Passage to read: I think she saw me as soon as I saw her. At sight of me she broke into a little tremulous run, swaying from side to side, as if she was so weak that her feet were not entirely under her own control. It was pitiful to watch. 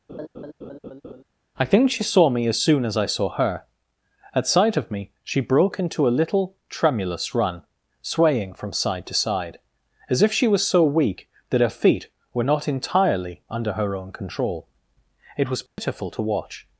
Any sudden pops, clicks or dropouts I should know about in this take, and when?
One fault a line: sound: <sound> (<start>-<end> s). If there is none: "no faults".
sound: laugh (0.1-1.2 s)
sound: dropout (15.7-15.8 s)